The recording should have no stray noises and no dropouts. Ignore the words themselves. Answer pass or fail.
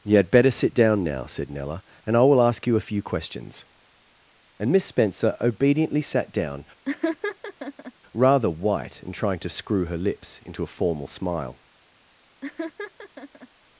fail